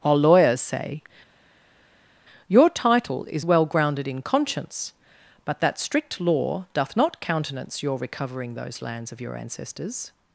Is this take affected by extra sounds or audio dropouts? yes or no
no